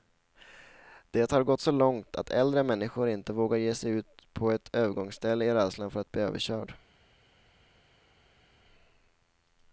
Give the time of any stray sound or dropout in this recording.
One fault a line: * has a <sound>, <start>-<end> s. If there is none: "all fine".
all fine